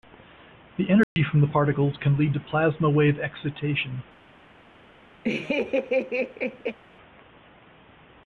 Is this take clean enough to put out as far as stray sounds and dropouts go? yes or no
no